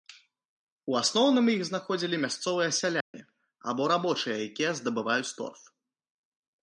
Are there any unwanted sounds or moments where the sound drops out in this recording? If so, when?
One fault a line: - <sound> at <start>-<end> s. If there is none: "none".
- dropout at 3.0-3.1 s